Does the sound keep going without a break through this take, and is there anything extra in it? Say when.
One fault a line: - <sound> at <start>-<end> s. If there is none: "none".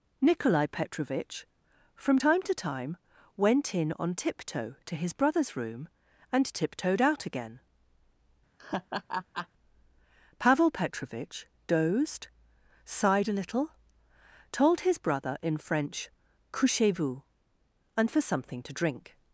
- laugh at 8.6-9.5 s